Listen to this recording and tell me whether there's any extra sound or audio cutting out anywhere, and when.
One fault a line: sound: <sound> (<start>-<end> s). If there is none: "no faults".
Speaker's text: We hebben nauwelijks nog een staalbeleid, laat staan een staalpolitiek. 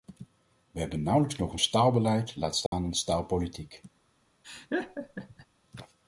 sound: dropout (2.7-2.7 s)
sound: laugh (4.4-5.5 s)